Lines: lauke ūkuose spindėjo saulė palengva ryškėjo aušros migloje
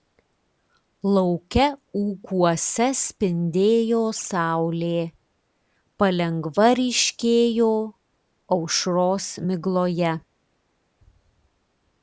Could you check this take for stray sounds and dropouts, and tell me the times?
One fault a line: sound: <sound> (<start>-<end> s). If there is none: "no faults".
no faults